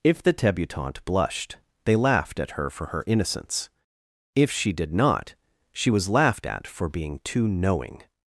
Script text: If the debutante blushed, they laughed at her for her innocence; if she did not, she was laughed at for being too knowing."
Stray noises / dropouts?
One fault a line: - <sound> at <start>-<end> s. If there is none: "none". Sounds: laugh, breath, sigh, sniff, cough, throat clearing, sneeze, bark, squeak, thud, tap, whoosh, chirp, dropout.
none